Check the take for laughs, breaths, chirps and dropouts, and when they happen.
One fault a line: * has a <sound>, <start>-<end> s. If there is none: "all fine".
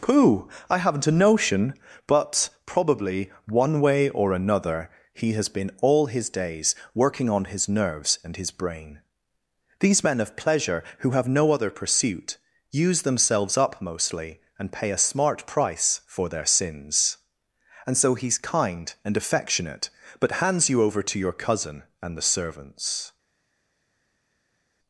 all fine